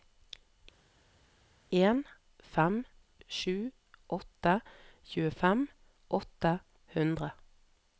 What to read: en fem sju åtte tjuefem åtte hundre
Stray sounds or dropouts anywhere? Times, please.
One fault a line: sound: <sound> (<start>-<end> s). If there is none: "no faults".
no faults